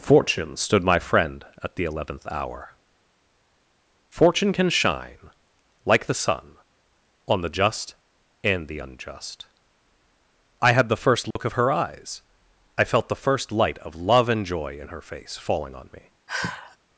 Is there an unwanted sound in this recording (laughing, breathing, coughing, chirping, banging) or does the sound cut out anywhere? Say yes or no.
yes